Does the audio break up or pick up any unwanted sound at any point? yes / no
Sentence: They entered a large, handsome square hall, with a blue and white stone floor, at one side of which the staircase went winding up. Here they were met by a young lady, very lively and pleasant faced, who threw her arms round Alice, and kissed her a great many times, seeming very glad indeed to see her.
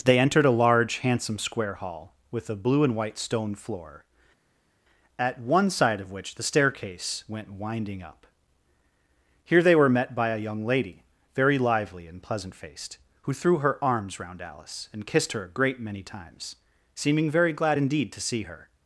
no